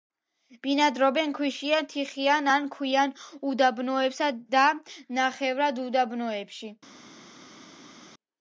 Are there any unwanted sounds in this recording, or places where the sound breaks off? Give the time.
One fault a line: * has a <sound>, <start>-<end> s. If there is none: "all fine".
all fine